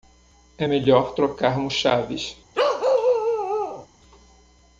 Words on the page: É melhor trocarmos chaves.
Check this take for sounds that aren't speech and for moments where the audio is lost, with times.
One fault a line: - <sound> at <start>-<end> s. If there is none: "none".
- bark at 2.5-3.9 s